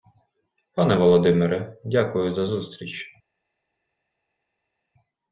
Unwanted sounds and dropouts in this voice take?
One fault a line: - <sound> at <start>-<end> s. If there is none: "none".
none